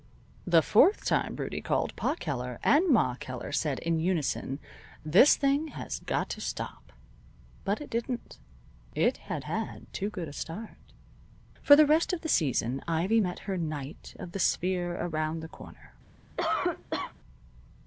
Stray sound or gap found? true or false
true